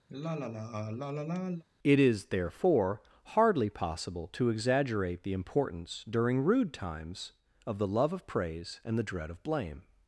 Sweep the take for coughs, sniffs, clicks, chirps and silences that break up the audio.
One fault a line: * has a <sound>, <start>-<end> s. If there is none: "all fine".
* has a sigh, 0.1-1.6 s